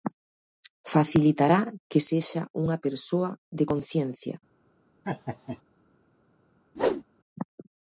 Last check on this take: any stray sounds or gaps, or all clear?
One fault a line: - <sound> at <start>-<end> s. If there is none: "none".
- laugh at 5.0-5.6 s
- whoosh at 6.8-7.0 s